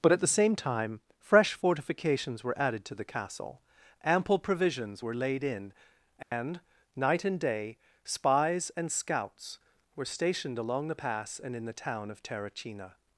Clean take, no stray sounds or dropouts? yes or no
no